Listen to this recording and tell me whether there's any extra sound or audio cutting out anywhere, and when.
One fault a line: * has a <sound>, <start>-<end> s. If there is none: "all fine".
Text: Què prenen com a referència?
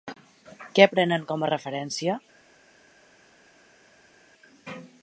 all fine